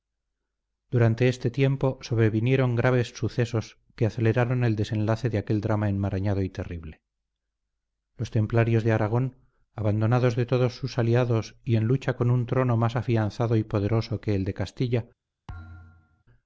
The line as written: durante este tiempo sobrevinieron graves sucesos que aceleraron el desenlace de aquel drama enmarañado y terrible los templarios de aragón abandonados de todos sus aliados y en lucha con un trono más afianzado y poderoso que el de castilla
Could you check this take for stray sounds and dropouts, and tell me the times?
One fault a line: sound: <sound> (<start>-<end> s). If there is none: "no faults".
sound: thud (15.5-16.2 s)